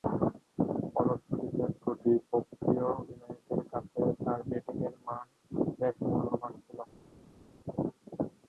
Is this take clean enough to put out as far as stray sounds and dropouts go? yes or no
yes